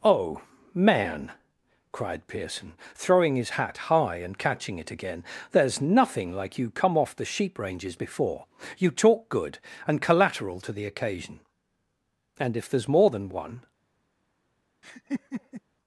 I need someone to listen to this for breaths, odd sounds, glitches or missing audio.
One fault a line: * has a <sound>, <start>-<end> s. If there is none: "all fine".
* has a laugh, 14.8-15.6 s